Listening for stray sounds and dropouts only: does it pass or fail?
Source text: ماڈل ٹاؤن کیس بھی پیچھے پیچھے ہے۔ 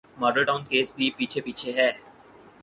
pass